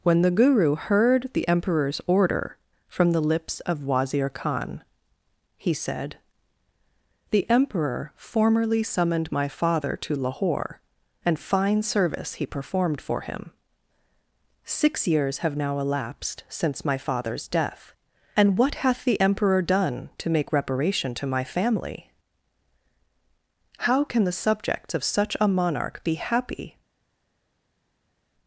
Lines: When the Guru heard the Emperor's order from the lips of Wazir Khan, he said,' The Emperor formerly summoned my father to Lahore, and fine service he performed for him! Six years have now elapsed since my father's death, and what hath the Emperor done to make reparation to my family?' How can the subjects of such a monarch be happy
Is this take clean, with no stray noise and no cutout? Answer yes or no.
yes